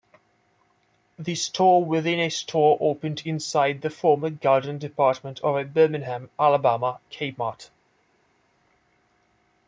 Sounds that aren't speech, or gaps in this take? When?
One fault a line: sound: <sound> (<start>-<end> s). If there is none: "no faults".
no faults